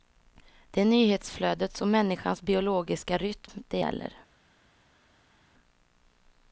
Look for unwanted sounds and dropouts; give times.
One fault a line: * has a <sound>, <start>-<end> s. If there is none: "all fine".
all fine